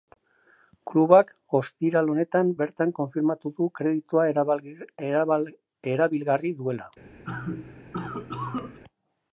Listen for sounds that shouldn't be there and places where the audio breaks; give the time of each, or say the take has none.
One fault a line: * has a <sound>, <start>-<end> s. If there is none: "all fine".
* has a cough, 7.2-8.8 s